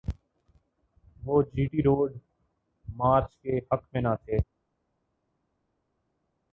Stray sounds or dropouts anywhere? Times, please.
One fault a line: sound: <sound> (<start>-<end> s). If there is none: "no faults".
no faults